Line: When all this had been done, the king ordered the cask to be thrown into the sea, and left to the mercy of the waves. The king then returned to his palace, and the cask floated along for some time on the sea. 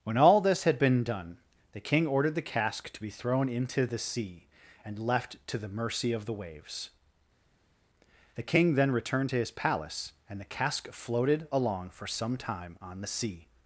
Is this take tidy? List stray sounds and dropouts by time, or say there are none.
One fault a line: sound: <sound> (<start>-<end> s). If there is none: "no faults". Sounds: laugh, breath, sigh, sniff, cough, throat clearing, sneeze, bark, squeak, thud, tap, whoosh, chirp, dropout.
no faults